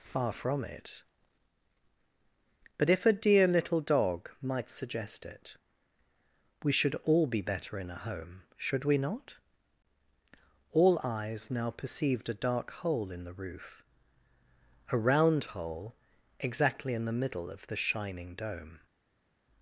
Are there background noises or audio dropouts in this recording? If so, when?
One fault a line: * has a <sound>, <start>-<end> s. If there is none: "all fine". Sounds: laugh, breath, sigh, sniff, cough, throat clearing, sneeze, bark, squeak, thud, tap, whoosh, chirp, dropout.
all fine